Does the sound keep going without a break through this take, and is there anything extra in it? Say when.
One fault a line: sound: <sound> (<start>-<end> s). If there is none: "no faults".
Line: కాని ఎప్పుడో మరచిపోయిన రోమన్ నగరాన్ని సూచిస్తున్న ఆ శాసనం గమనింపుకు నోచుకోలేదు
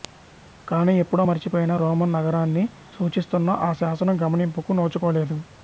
no faults